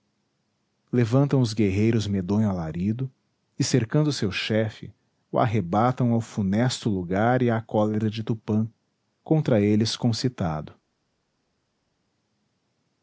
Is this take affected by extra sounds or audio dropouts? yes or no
no